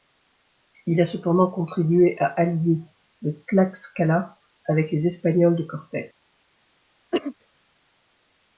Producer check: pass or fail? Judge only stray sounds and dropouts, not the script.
fail